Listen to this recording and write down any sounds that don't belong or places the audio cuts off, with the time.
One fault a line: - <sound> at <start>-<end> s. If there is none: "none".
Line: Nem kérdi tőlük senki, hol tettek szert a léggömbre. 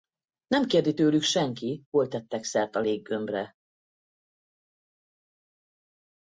none